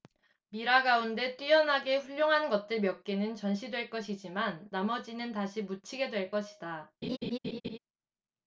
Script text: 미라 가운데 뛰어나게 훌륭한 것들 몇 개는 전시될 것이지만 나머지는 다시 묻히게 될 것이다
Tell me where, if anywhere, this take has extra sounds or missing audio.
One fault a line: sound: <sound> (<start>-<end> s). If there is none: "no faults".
sound: laugh (7.0-7.8 s)